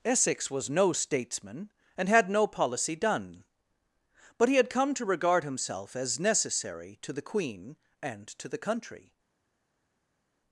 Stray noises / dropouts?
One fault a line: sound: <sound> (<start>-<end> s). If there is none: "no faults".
no faults